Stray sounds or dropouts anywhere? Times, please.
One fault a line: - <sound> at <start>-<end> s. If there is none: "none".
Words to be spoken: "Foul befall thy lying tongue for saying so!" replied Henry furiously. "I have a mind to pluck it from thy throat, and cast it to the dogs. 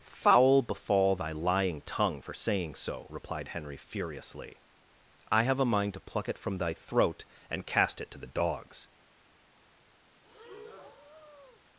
- breath at 10.2-11.6 s